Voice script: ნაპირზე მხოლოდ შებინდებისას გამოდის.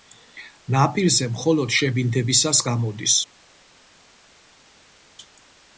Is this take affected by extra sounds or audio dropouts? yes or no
no